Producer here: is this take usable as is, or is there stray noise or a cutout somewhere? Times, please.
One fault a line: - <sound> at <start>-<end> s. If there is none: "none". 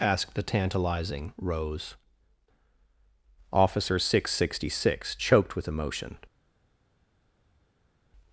none